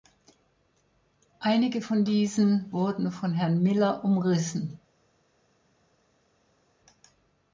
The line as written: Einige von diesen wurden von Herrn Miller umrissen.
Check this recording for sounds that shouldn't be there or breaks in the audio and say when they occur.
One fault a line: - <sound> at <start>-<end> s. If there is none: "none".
none